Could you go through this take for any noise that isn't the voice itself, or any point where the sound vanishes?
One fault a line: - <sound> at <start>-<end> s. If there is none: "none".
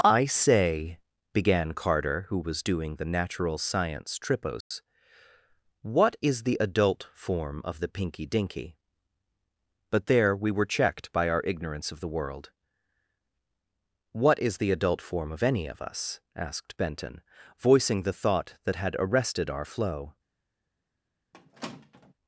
- dropout at 4.6-4.7 s
- squeak at 21.3-22.1 s